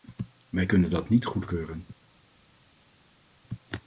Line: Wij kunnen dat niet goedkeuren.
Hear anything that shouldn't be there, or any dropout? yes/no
no